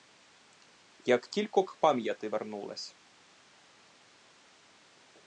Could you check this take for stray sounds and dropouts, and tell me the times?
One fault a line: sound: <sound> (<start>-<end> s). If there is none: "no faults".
no faults